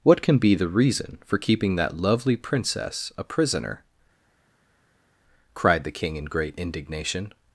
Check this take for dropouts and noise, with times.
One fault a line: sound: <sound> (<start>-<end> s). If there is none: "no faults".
no faults